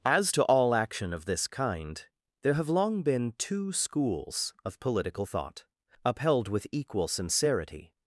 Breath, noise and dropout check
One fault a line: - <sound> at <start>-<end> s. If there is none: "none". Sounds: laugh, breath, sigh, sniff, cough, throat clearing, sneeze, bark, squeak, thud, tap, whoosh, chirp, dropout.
none